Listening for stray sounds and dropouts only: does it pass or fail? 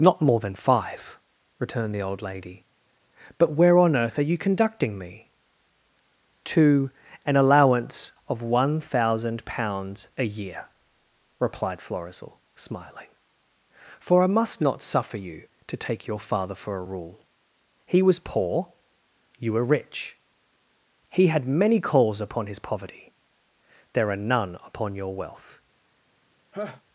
fail